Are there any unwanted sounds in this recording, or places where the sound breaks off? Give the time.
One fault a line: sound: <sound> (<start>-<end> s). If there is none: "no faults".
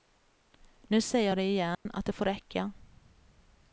sound: dropout (1.7-1.9 s)